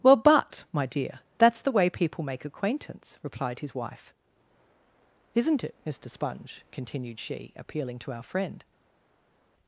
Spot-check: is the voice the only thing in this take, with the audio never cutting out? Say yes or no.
yes